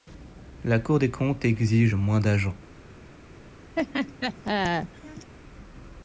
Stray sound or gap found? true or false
true